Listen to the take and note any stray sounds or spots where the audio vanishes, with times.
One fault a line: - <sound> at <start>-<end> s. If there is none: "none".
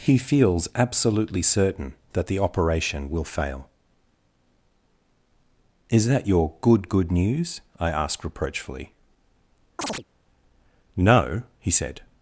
- chirp at 9.8-10.0 s